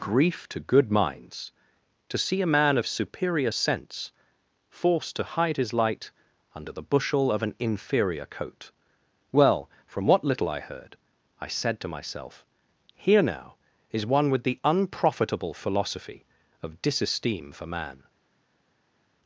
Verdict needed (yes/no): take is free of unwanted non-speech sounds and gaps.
yes